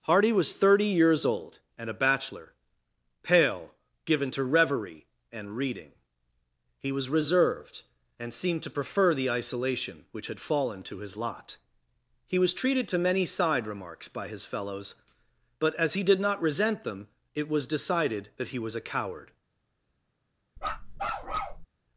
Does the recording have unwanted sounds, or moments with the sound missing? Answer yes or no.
yes